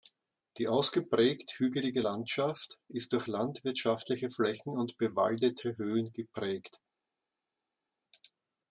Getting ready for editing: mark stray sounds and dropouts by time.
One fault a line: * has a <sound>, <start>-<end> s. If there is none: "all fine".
all fine